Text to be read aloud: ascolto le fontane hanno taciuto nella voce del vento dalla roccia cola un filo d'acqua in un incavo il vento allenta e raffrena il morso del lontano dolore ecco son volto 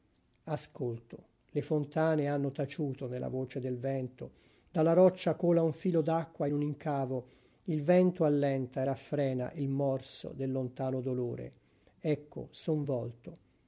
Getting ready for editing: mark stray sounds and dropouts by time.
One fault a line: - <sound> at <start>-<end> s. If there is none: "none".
none